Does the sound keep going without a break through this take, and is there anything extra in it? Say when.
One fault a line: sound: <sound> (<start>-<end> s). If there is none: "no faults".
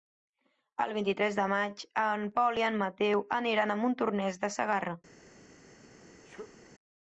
sound: sneeze (6.2-6.6 s)